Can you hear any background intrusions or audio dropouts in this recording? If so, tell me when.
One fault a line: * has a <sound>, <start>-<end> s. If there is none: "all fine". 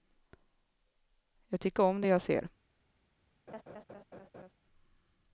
* has a laugh, 3.5-4.5 s